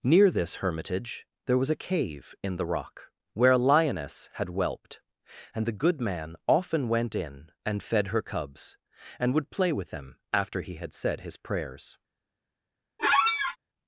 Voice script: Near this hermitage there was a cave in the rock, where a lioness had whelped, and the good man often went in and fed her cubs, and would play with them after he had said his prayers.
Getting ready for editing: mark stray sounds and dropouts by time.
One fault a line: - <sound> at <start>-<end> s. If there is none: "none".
- squeak at 13.0-13.6 s